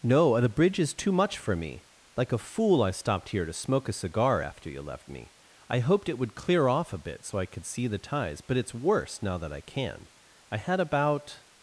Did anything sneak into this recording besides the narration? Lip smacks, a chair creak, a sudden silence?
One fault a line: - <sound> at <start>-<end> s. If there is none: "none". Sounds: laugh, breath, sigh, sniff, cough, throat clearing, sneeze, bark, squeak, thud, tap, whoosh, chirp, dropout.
none